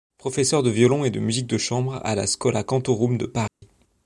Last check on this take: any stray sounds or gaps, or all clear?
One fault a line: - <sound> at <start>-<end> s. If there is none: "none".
- dropout at 3.5-3.6 s